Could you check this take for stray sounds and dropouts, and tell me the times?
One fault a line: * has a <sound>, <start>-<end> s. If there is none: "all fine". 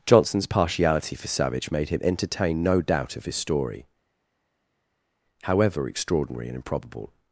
all fine